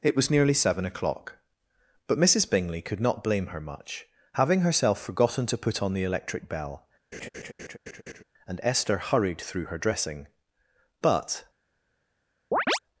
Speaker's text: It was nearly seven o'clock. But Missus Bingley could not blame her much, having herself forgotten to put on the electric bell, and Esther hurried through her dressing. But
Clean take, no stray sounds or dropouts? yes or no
no